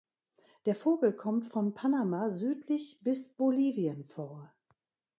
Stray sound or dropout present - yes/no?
no